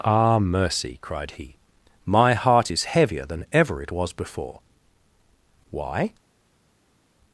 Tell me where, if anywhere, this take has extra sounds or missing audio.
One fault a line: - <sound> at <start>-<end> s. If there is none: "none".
none